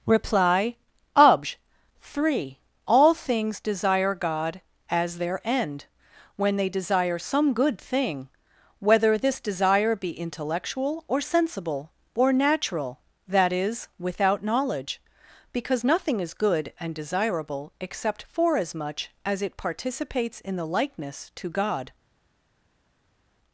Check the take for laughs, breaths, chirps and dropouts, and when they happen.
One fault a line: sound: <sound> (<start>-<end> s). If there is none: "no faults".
no faults